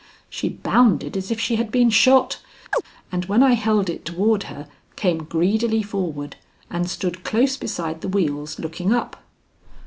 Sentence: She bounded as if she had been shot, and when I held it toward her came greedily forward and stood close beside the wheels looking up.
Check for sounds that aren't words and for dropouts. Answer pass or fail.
fail